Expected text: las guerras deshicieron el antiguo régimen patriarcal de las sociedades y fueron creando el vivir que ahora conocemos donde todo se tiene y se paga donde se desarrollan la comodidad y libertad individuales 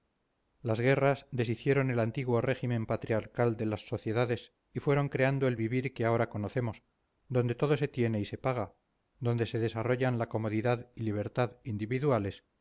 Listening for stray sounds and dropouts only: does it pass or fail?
pass